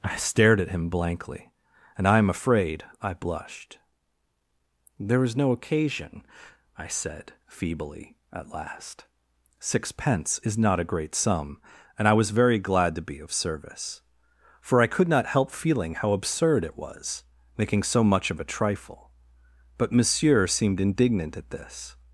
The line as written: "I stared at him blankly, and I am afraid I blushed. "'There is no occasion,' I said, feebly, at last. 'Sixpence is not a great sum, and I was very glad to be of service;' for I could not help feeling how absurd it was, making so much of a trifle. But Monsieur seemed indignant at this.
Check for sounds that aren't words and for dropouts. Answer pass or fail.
pass